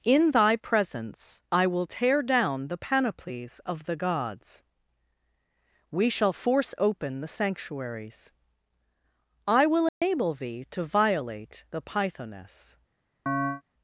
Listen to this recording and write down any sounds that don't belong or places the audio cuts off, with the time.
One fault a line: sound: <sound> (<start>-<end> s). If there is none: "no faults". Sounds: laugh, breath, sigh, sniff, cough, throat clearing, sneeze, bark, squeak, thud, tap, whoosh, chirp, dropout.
sound: dropout (9.9-10.0 s)
sound: chirp (13.3-13.6 s)